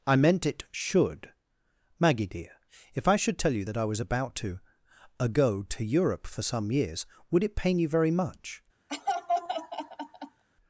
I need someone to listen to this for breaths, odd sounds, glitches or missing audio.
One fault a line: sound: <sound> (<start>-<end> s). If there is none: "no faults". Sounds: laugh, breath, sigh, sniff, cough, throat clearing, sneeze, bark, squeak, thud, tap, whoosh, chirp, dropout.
sound: laugh (8.9-10.4 s)